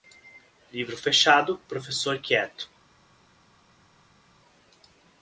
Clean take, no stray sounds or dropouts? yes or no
yes